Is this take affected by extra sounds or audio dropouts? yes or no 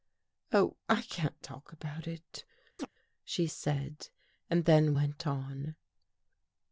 yes